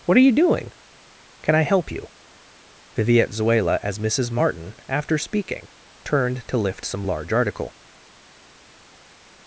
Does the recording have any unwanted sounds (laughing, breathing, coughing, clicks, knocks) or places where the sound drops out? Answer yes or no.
no